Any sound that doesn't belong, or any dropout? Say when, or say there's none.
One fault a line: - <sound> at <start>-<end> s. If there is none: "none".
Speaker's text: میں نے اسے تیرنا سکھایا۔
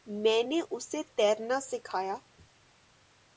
none